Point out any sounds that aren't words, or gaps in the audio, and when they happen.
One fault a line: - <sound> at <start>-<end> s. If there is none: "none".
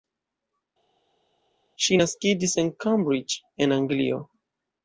none